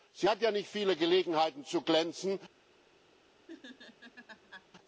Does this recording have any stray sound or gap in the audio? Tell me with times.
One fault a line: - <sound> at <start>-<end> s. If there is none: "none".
- laugh at 3.5-4.7 s